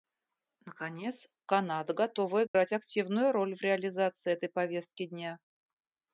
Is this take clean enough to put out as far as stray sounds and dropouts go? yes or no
no